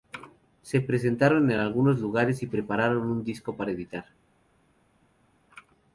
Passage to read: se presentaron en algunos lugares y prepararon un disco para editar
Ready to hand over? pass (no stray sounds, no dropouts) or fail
pass